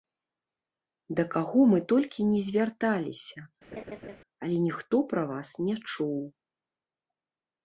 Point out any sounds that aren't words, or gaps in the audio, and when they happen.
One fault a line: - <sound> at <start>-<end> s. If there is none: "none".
- laugh at 3.7-4.2 s